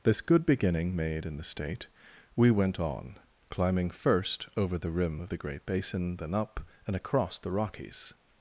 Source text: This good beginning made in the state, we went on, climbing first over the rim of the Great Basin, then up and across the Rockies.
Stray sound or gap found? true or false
false